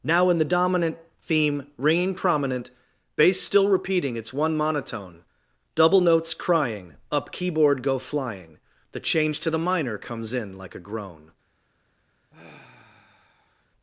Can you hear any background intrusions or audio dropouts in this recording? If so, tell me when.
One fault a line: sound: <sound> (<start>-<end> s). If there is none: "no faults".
sound: sigh (12.3-13.7 s)